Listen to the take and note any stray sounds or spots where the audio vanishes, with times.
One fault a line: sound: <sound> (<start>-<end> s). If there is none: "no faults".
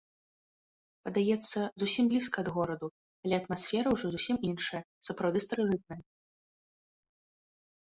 no faults